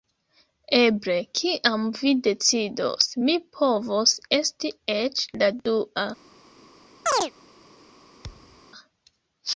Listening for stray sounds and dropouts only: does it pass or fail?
fail